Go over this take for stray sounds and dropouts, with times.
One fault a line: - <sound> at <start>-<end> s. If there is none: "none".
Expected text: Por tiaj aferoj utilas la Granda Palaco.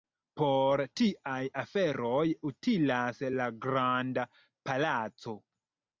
none